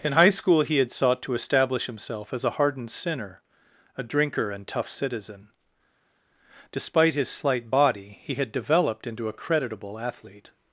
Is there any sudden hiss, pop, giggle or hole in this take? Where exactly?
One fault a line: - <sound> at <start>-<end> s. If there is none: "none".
none